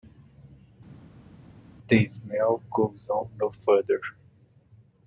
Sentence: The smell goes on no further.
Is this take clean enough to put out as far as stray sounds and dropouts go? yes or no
yes